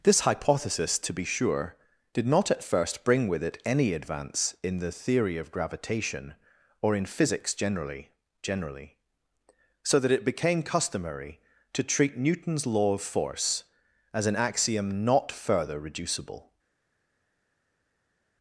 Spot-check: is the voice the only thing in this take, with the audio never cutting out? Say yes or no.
yes